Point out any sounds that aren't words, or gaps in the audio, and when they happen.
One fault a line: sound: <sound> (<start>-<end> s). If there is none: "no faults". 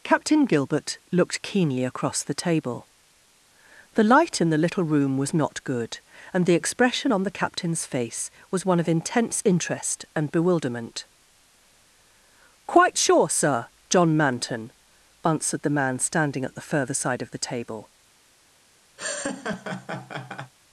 sound: laugh (19.0-20.5 s)